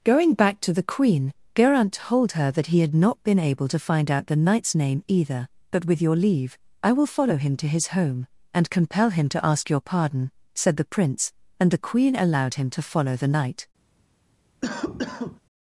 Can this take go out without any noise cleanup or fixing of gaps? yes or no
no